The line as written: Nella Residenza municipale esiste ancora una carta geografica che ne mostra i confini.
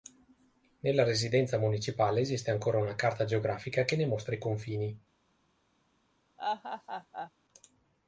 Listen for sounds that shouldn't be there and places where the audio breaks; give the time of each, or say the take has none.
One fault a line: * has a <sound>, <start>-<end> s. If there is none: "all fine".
* has a laugh, 6.4-7.3 s